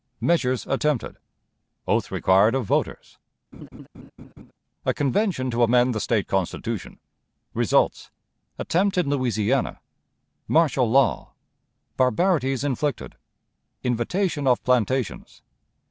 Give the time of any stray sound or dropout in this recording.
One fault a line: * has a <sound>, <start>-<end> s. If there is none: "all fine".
* has a laugh, 3.5-4.5 s